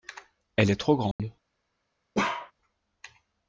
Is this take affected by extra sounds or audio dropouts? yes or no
yes